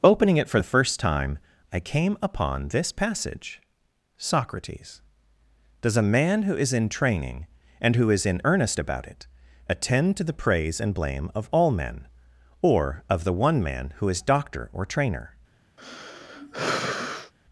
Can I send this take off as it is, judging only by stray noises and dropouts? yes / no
no